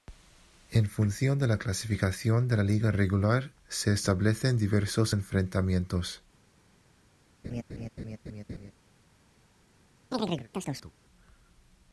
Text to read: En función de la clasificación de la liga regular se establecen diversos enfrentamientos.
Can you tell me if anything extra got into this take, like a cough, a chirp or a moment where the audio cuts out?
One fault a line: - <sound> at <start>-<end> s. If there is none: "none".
- laugh at 7.4-8.7 s
- chirp at 10.1-10.9 s